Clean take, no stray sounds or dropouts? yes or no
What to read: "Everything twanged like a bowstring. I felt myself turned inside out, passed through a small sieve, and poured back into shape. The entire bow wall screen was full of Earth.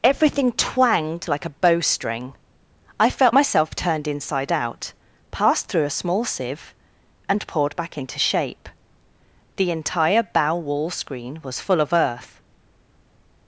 yes